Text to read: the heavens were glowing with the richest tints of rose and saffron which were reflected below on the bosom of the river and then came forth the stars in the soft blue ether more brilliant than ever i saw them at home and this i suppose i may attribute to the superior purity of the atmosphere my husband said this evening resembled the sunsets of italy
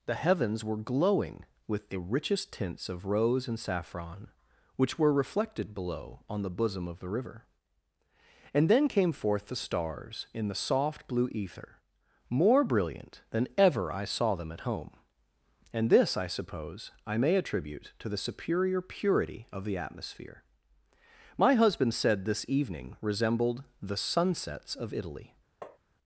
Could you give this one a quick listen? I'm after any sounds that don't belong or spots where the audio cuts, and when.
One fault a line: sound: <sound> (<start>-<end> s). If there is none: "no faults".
sound: tap (25.6-25.8 s)